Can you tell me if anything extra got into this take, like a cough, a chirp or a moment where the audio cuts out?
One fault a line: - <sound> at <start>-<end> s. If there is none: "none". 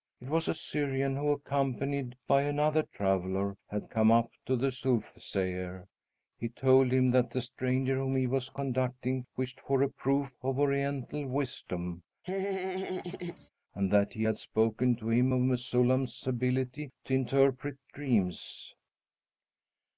- laugh at 12.2-13.5 s